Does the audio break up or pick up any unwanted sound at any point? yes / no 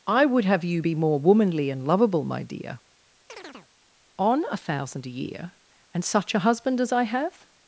yes